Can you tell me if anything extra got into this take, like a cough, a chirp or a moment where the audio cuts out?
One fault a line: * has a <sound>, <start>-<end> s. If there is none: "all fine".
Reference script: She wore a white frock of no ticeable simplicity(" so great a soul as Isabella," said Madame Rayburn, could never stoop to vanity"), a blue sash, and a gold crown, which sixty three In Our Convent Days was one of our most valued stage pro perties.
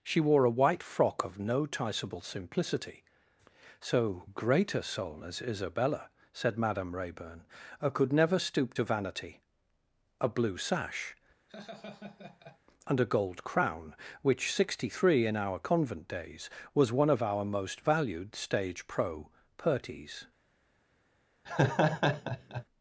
* has a laugh, 11.5-12.6 s
* has a laugh, 21.4-22.6 s